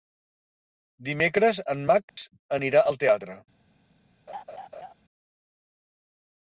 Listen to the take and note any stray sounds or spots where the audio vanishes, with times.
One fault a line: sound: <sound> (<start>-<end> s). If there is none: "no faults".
sound: dropout (2.1-2.2 s)
sound: laugh (4.3-4.9 s)